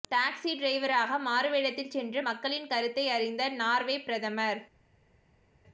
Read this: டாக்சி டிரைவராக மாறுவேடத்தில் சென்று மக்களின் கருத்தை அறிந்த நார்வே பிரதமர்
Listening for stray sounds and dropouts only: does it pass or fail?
pass